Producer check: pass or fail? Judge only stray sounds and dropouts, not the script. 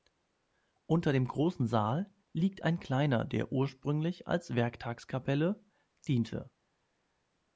pass